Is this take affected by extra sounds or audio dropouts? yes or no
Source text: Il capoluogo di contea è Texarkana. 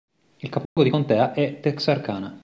yes